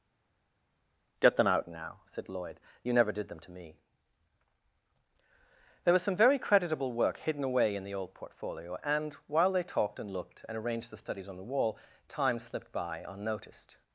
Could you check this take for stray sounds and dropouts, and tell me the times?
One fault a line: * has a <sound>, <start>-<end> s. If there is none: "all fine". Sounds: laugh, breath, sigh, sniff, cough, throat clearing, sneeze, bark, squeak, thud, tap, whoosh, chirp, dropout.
all fine